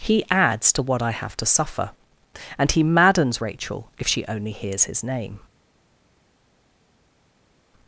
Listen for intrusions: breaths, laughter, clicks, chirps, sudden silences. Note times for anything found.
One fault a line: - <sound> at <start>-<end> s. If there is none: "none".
none